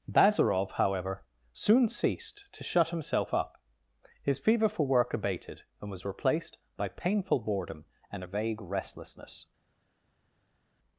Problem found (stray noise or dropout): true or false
false